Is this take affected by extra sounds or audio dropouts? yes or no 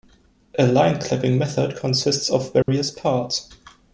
yes